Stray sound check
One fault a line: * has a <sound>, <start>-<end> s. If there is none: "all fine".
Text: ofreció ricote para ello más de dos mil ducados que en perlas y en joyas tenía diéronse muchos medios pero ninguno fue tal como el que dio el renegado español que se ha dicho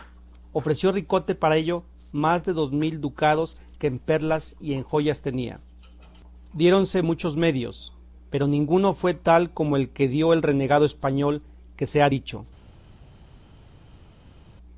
all fine